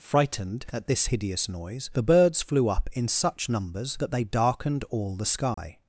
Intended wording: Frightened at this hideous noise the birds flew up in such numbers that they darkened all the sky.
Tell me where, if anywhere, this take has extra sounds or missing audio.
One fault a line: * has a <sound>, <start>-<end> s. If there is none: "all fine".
* has a dropout, 5.5-5.6 s